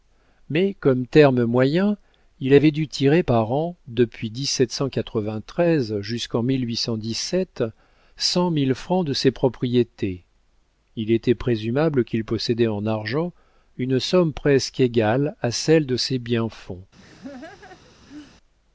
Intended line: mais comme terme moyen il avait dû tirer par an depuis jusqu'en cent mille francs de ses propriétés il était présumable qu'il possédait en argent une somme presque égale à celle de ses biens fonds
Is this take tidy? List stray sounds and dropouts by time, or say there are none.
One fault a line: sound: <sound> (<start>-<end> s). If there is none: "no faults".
sound: laugh (17.0-18.4 s)